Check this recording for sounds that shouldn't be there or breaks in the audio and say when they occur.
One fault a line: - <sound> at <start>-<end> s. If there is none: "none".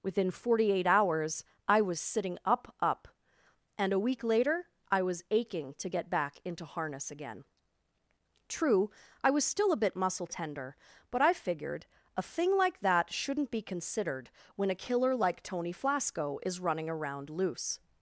none